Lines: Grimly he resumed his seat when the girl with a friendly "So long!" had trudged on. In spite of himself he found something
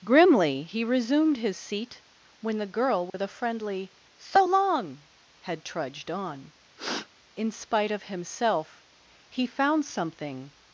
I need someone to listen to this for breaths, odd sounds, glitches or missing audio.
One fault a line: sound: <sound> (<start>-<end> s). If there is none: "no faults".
sound: dropout (3.1-3.1 s)
sound: sniff (6.8-7.1 s)